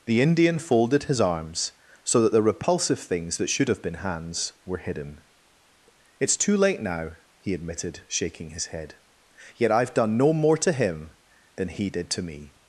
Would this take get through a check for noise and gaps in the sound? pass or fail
pass